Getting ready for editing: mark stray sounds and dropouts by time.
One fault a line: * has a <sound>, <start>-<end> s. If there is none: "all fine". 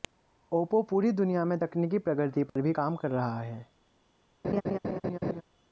* has a dropout, 2.5-2.6 s
* has a laugh, 4.4-5.4 s